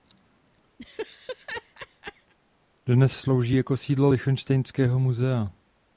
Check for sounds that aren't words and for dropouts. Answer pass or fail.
fail